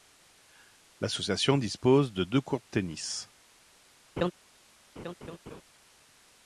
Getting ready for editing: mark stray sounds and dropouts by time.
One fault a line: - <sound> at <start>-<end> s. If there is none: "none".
- laugh at 4.2-4.3 s
- laugh at 5.0-5.6 s